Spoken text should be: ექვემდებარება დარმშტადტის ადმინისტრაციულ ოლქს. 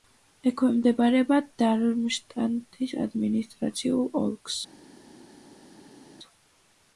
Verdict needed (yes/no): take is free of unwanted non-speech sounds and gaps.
yes